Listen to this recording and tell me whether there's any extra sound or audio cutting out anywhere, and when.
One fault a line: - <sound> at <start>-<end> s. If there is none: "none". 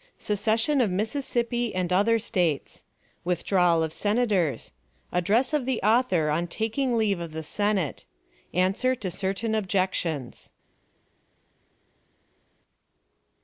none